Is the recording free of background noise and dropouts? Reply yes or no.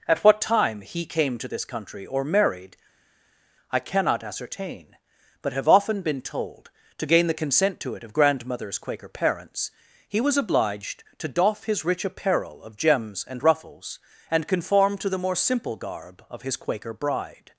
yes